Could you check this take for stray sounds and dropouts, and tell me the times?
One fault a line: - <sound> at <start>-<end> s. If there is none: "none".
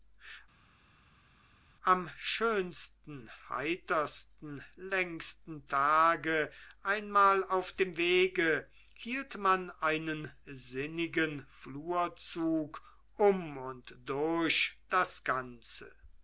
none